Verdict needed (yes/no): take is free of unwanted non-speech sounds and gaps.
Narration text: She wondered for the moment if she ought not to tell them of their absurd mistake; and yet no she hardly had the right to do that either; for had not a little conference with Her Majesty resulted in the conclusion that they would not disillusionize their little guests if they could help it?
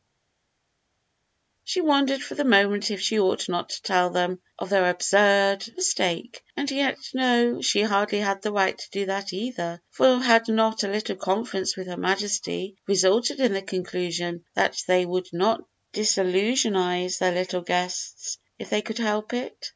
yes